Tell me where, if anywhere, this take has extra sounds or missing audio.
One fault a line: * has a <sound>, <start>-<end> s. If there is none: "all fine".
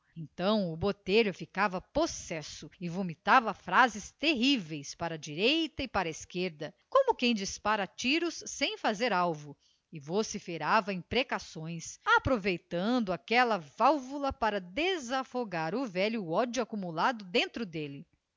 all fine